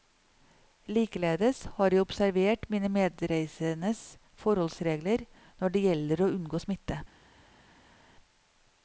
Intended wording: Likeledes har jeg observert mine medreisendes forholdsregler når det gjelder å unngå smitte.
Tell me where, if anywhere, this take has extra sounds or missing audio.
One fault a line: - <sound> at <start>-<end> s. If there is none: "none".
none